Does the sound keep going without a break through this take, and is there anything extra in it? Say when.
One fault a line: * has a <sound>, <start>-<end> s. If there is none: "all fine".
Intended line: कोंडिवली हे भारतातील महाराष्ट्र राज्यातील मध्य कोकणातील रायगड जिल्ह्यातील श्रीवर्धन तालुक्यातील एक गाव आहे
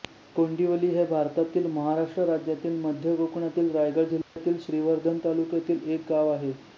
* has a dropout, 4.2-4.4 s